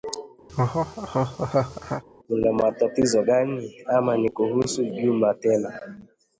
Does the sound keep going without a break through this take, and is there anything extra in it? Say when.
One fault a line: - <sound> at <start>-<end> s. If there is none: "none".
- laugh at 0.5-2.0 s